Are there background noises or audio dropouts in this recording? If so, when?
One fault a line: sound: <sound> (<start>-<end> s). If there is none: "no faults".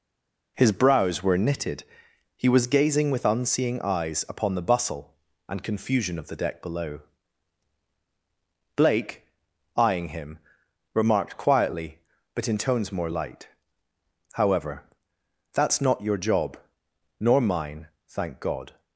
no faults